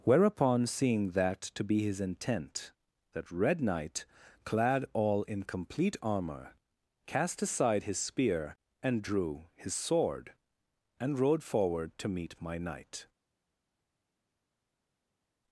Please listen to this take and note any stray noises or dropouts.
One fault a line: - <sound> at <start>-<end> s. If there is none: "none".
none